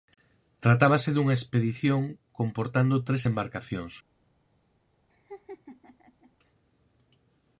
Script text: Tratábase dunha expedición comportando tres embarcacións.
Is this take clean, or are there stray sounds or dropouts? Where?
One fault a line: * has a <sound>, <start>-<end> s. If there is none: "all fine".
* has a laugh, 5.1-6.3 s